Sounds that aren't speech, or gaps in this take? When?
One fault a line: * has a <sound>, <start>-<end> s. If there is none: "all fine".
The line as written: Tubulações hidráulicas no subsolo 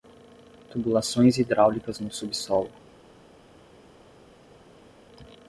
all fine